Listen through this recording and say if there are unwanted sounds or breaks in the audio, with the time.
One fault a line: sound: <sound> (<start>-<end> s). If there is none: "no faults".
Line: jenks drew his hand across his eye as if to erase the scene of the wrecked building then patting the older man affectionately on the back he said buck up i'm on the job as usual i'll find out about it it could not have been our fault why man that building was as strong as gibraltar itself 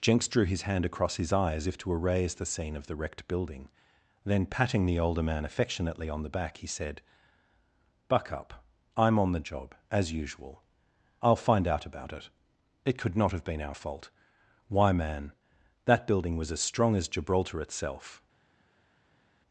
no faults